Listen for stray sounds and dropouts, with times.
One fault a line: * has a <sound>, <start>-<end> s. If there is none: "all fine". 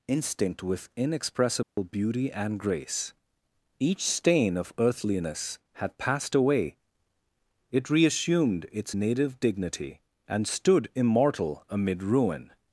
* has a dropout, 1.6-1.8 s